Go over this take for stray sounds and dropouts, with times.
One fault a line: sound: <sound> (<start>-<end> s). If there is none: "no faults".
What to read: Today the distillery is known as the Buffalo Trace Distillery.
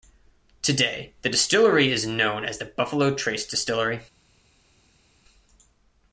no faults